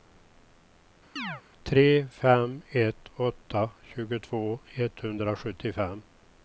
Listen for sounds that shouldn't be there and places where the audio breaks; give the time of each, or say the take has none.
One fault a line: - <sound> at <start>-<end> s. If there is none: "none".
- chirp at 1.2-1.4 s